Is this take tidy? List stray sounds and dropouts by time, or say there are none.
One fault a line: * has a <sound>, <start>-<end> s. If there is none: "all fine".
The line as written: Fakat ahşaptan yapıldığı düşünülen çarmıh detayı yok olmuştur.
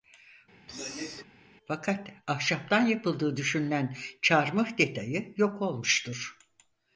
* has a throat clearing, 0.7-1.2 s